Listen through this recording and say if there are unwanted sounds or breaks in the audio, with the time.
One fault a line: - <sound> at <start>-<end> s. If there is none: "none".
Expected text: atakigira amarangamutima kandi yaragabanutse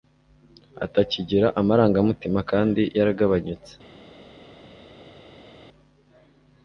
none